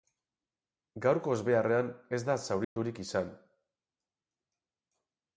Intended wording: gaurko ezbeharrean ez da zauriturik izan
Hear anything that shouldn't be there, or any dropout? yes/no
yes